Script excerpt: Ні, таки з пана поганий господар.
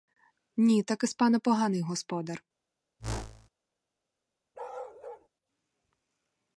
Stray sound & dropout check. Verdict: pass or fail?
fail